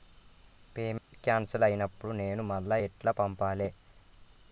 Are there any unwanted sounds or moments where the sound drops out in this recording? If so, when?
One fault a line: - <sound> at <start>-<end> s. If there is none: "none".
- dropout at 1.0-1.1 s